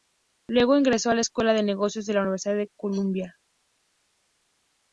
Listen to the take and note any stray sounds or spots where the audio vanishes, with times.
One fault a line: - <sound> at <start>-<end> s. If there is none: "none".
none